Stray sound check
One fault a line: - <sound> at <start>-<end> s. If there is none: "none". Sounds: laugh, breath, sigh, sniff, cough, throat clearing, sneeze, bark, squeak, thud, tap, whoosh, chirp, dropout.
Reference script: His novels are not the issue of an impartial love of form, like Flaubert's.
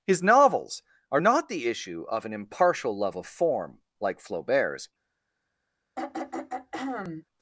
- throat clearing at 6.0-7.3 s